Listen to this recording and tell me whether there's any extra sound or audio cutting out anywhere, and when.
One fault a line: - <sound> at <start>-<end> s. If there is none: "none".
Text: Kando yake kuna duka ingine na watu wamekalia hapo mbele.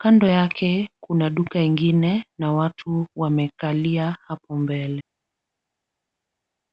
none